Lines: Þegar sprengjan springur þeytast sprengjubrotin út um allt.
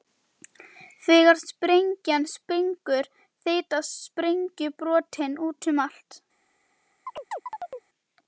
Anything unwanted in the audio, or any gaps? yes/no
yes